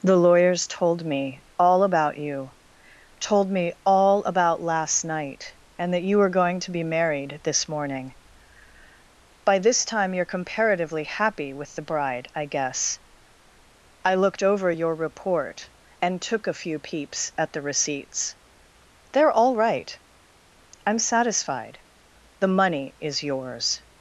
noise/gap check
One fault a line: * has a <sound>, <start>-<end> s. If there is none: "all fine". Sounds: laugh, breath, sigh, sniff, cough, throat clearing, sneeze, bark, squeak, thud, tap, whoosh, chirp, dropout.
all fine